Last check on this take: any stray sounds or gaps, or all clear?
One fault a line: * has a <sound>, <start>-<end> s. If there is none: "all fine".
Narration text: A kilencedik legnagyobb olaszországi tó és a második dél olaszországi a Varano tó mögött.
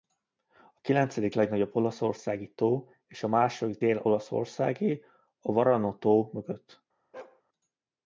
* has a bark, 7.1-7.4 s